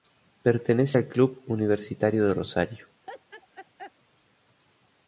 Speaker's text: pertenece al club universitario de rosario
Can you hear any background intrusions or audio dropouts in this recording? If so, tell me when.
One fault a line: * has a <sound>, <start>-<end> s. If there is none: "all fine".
* has a laugh, 3.0-3.9 s